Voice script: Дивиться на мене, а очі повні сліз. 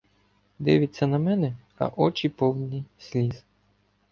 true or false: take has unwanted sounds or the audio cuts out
false